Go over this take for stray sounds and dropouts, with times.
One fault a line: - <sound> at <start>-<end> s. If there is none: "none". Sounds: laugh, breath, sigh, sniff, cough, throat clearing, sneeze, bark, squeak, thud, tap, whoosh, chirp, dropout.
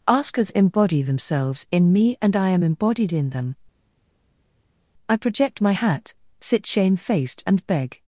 none